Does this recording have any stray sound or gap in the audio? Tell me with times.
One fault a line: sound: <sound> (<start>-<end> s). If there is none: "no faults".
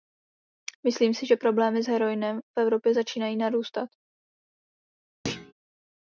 sound: thud (5.2-5.5 s)